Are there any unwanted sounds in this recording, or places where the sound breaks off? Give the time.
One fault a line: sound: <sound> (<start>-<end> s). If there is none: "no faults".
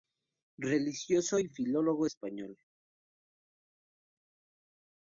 no faults